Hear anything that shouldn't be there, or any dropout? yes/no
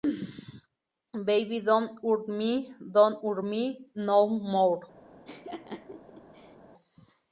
yes